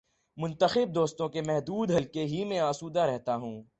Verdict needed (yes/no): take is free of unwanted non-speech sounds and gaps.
yes